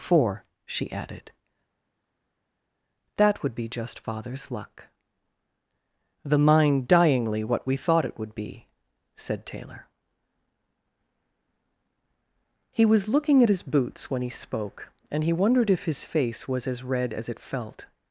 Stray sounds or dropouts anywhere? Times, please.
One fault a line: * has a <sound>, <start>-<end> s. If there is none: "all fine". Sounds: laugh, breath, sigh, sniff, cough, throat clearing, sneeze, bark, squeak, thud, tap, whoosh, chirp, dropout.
all fine